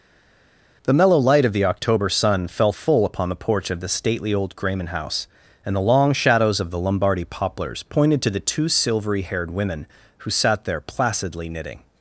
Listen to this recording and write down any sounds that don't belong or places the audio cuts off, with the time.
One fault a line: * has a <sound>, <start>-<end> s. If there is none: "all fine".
all fine